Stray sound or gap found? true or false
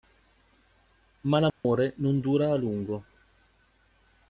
true